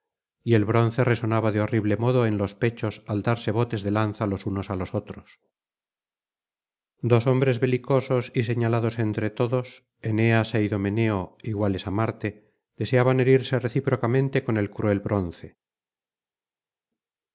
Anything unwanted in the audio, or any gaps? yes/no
no